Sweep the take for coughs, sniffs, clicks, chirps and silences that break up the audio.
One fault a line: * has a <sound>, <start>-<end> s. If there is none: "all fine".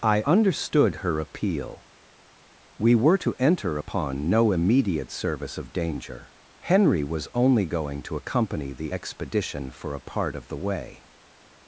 all fine